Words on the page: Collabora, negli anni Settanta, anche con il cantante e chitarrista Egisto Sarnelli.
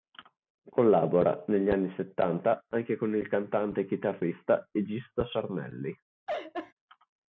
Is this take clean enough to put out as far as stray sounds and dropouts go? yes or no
no